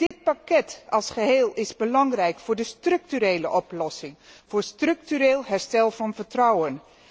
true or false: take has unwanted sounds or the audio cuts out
true